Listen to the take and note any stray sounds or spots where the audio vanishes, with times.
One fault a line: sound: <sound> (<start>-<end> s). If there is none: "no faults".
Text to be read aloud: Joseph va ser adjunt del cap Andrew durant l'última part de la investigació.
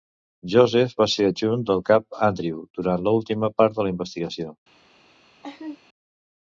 sound: laugh (5.4-5.8 s)